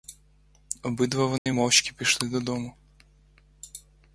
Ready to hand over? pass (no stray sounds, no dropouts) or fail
fail